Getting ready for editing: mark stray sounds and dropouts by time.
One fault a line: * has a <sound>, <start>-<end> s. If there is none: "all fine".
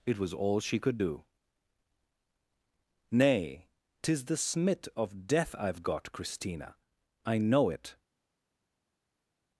all fine